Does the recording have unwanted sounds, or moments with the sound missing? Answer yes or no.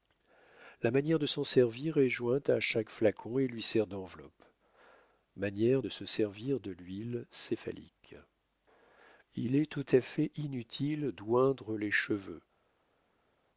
no